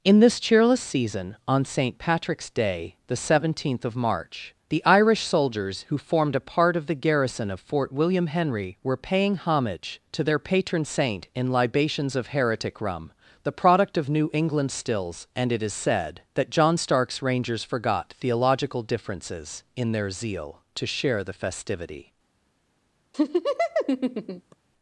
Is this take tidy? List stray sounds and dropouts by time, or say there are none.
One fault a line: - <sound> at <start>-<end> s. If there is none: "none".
- laugh at 23.1-24.6 s